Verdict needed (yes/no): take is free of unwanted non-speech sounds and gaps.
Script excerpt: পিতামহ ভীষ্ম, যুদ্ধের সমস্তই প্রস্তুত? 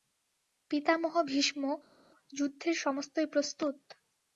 yes